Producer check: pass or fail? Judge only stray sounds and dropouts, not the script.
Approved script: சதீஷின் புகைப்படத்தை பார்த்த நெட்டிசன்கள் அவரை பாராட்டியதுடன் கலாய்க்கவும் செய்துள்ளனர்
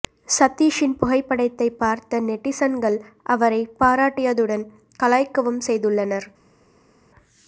pass